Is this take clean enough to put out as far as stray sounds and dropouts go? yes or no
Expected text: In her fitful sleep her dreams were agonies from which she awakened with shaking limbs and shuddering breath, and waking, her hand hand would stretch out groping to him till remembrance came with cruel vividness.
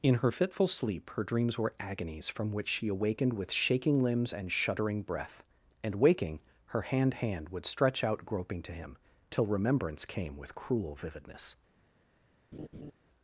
no